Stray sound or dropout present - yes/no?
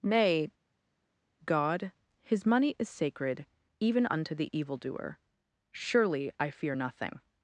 no